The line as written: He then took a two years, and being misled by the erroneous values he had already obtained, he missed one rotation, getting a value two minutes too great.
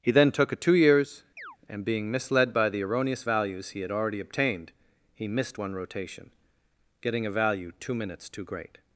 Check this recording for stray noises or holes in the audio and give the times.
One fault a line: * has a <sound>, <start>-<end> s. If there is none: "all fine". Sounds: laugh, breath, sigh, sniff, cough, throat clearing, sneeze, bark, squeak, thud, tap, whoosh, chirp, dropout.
* has a chirp, 1.4-1.6 s